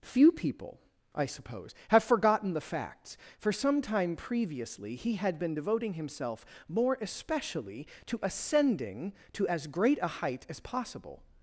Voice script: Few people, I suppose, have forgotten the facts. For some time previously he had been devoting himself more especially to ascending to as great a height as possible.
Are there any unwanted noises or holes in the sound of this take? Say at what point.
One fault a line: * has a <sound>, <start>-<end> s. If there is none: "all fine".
all fine